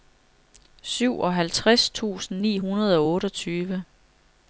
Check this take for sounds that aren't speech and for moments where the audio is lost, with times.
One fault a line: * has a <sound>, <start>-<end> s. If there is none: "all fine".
all fine